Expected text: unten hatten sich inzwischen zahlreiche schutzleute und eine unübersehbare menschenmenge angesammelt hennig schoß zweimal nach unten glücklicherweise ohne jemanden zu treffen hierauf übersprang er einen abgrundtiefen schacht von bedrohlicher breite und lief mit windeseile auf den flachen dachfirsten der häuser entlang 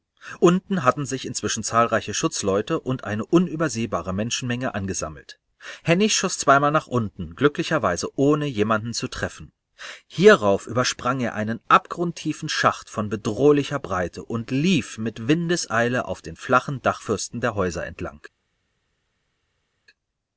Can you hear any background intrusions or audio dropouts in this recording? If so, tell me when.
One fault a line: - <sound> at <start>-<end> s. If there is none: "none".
none